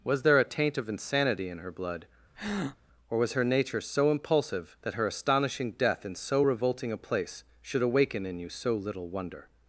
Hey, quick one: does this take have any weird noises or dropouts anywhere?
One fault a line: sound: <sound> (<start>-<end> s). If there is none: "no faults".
sound: breath (2.3-2.8 s)